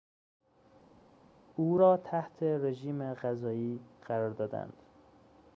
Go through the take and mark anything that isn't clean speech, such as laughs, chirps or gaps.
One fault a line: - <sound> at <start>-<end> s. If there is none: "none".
none